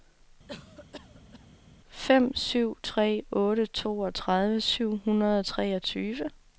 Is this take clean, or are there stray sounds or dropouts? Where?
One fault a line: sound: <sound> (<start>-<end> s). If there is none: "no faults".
sound: cough (0.5-1.6 s)